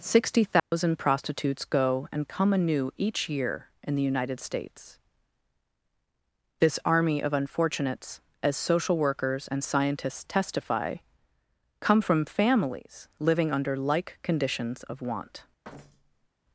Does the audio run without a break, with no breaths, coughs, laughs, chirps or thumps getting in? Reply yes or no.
no